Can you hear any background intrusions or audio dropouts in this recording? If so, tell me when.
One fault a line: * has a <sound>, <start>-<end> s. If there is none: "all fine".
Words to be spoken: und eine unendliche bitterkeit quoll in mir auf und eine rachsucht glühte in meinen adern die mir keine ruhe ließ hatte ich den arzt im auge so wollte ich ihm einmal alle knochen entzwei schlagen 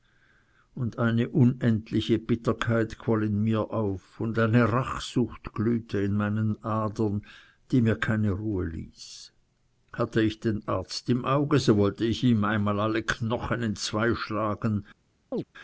* has a chirp, 15.3-15.4 s